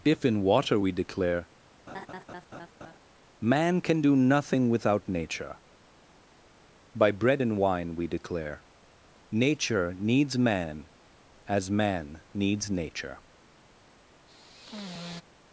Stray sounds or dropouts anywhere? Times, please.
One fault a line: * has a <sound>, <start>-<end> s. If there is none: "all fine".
* has a laugh, 1.9-3.0 s
* has a sigh, 14.3-15.2 s